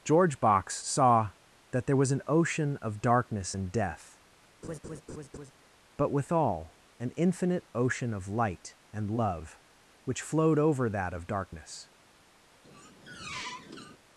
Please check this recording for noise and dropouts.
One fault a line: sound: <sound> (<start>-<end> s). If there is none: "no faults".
sound: laugh (4.6-5.5 s)
sound: squeak (12.6-14.0 s)